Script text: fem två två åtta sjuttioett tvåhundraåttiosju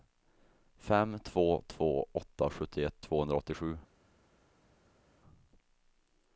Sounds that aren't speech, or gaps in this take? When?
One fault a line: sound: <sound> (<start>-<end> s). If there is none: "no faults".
no faults